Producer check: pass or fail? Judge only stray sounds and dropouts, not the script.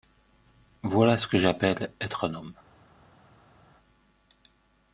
pass